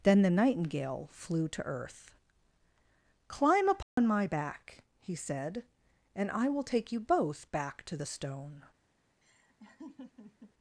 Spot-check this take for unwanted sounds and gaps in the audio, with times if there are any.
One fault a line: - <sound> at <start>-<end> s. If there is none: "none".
- dropout at 3.8-4.0 s
- laugh at 9.2-10.5 s